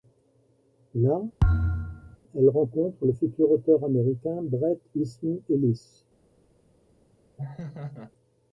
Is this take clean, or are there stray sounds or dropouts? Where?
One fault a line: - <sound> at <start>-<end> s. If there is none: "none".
- thud at 1.4-2.2 s
- laugh at 7.4-8.1 s